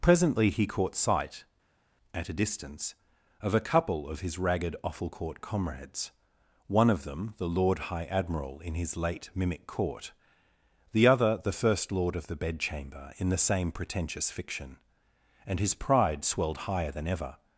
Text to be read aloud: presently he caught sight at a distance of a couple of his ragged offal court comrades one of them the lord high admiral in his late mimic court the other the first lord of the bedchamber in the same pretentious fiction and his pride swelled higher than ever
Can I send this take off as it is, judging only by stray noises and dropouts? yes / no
yes